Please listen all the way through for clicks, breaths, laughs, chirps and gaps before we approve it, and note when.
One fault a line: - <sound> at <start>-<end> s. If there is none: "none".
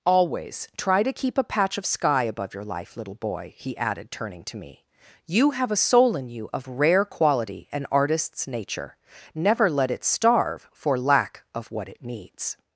none